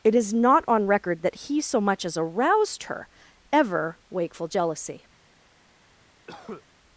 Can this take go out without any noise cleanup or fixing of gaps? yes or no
no